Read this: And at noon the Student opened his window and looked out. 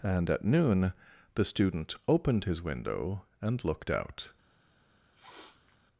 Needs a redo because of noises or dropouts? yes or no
yes